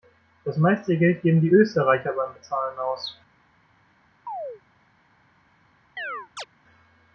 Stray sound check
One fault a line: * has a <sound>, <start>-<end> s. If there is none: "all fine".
* has a chirp, 4.3-4.6 s
* has a chirp, 6.0-6.5 s